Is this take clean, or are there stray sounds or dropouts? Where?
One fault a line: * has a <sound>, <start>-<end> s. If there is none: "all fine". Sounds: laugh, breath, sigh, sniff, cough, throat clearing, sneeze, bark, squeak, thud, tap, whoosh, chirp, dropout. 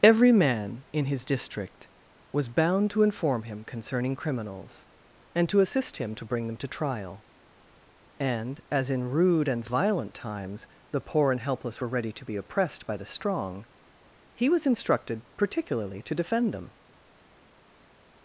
all fine